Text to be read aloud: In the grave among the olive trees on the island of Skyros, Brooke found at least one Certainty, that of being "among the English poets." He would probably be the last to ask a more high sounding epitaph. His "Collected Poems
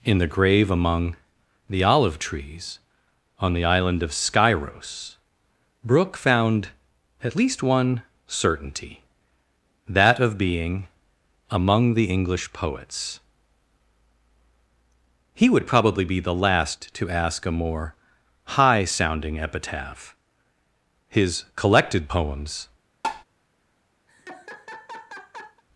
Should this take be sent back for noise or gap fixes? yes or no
yes